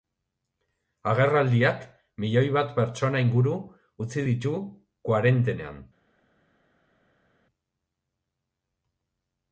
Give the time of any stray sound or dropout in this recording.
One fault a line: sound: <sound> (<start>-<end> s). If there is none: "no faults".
no faults